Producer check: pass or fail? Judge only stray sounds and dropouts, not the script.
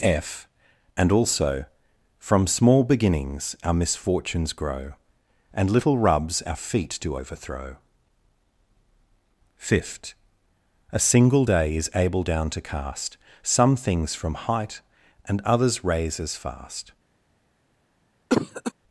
fail